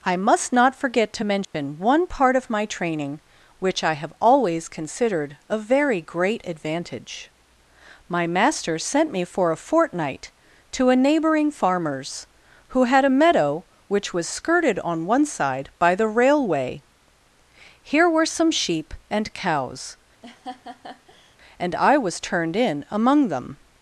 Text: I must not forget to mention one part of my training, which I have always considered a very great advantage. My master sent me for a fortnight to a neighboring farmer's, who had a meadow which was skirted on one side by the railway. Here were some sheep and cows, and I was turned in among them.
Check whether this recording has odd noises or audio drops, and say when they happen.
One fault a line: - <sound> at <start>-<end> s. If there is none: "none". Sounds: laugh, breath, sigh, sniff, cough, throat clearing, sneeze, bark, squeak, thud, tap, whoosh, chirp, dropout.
- dropout at 1.4-1.5 s
- laugh at 20.2-21.4 s